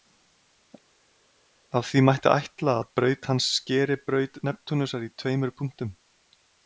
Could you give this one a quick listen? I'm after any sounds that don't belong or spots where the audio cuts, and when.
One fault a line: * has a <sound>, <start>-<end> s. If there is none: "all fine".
all fine